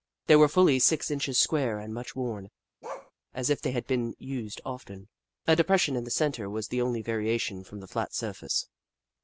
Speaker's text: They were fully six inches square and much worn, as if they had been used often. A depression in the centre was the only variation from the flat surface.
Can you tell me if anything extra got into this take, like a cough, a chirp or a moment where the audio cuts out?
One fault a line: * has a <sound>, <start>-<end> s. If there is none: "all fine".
* has a bark, 2.8-3.1 s